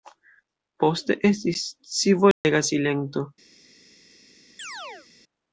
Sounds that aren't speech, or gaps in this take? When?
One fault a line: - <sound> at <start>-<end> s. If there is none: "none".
- dropout at 2.3-2.4 s
- chirp at 4.6-5.1 s